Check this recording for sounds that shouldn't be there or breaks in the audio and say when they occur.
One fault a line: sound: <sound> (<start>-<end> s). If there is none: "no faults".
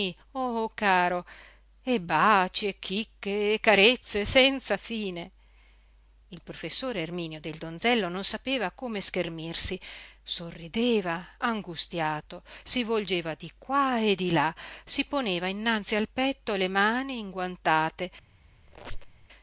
sound: squeak (18.7-19.3 s)